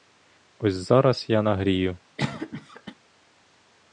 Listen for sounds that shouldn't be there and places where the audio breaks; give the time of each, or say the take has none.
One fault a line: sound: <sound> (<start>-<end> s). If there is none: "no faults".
sound: cough (2.2-2.9 s)